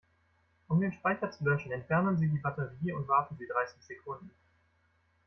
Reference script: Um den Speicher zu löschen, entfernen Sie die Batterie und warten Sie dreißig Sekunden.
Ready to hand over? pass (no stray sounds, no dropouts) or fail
pass